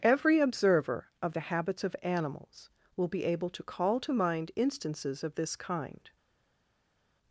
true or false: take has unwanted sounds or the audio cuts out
false